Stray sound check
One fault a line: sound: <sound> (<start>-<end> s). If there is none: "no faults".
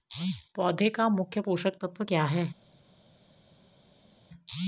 no faults